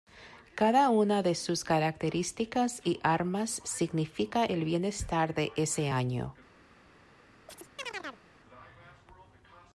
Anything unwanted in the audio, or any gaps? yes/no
yes